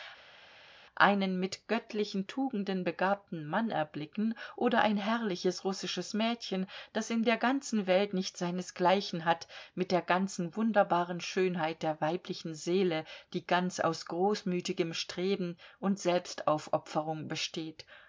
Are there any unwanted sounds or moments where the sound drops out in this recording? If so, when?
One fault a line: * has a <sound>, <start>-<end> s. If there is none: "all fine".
all fine